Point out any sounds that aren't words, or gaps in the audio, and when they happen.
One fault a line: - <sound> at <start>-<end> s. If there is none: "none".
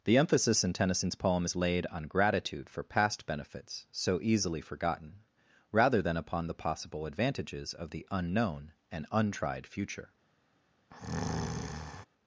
- breath at 10.9-12.1 s